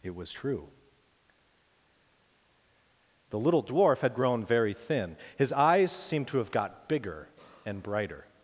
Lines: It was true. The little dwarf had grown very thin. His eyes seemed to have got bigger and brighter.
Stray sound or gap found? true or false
false